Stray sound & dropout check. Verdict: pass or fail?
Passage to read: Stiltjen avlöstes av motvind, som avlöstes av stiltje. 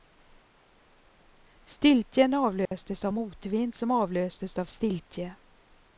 fail